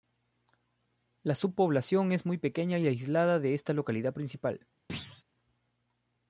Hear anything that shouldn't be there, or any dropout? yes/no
yes